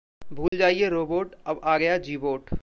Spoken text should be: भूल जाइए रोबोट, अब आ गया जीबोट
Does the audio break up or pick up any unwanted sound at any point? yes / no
yes